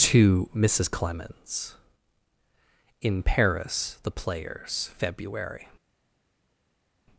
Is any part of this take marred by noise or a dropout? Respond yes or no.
no